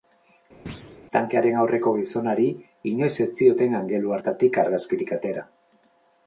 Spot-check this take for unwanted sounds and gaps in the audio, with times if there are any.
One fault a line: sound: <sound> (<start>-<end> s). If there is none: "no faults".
sound: thud (0.7-1.0 s)